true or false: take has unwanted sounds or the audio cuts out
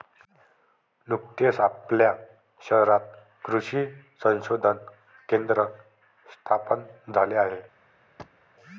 true